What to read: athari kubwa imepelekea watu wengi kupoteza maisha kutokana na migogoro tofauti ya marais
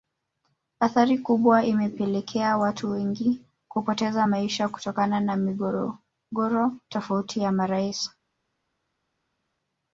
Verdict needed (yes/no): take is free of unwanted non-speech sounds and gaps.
yes